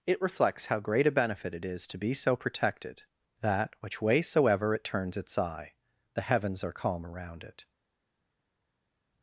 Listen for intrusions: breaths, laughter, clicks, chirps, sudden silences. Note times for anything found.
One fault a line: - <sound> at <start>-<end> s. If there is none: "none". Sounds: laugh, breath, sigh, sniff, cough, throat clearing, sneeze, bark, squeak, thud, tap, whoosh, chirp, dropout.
none